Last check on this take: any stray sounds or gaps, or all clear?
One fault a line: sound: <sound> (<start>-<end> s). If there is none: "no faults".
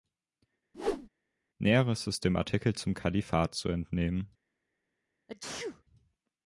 sound: whoosh (0.7-1.1 s)
sound: sneeze (5.3-5.8 s)